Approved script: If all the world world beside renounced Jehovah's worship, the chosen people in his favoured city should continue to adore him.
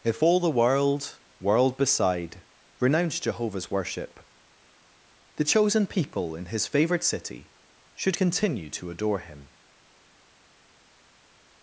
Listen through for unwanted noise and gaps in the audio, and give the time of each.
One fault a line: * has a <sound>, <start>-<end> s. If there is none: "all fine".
all fine